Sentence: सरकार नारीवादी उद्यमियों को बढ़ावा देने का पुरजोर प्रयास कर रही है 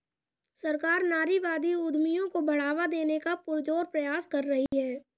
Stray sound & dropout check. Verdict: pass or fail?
fail